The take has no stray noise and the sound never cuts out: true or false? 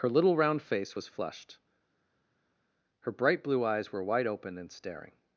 true